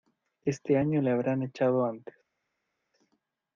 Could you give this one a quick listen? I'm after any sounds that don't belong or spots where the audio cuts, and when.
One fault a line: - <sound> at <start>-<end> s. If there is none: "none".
none